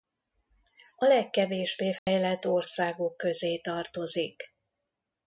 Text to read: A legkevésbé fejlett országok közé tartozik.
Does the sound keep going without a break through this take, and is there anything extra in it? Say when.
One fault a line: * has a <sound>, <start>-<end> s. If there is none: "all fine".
* has a dropout, 2.0-2.1 s